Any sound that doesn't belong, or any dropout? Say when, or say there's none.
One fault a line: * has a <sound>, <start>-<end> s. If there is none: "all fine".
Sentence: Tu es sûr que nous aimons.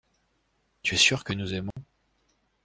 * has a dropout, 1.7-1.8 s